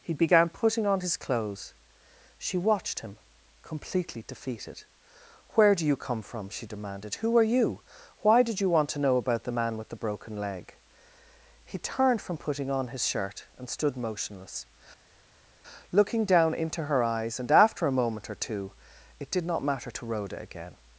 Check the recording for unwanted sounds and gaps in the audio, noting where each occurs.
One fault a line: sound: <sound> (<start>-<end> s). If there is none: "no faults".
no faults